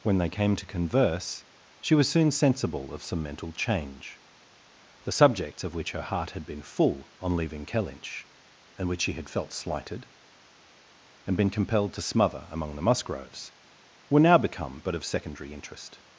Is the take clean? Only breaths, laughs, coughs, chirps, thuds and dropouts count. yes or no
yes